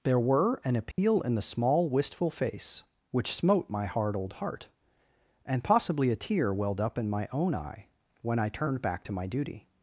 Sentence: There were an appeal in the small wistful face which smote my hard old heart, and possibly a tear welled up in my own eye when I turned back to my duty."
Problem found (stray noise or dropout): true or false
true